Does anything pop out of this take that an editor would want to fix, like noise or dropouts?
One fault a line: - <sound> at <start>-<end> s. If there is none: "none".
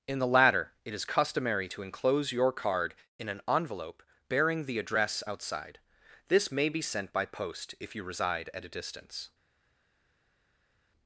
none